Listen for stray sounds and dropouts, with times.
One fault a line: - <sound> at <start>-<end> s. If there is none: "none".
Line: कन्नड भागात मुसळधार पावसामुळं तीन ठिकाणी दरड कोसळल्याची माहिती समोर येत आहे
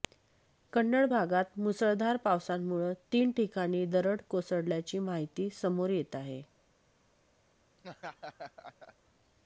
- laugh at 7.8-8.9 s